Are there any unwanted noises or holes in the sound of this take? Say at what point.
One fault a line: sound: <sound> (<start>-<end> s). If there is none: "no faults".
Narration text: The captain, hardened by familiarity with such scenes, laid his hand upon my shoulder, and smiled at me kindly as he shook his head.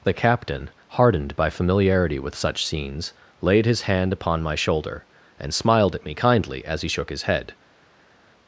no faults